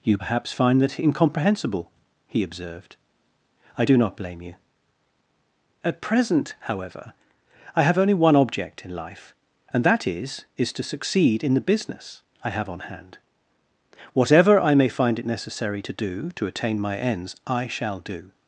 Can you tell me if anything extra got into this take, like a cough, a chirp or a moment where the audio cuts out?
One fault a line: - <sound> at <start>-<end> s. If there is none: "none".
none